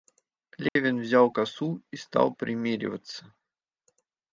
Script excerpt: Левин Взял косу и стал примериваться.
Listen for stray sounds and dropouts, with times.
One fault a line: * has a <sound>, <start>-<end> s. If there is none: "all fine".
* has a dropout, 0.7-0.8 s